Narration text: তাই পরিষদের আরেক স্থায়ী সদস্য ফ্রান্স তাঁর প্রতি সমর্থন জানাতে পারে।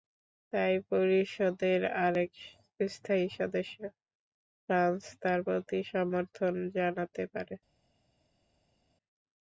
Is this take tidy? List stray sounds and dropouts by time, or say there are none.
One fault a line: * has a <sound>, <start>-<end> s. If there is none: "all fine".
all fine